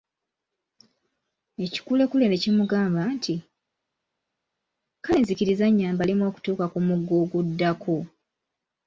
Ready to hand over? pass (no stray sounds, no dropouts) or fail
pass